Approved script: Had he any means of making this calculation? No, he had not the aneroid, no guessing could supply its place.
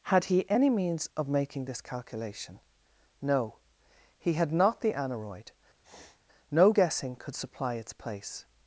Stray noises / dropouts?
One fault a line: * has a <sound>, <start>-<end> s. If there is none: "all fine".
* has a sniff, 5.8-6.2 s